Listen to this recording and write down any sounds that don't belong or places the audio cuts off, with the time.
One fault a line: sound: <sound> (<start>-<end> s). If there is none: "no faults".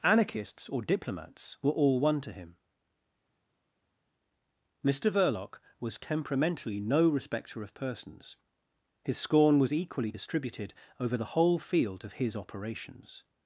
no faults